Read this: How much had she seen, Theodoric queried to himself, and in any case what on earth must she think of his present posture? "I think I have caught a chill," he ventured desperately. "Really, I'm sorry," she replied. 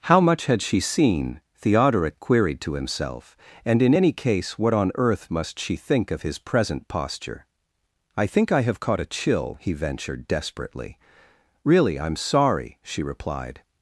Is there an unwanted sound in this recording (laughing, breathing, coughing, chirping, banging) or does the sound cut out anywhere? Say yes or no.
no